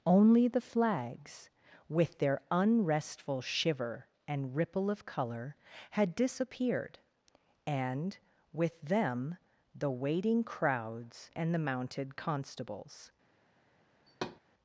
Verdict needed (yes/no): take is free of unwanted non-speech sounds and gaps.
no